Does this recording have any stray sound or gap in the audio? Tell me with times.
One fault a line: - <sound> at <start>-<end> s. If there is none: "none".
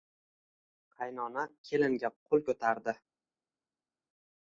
none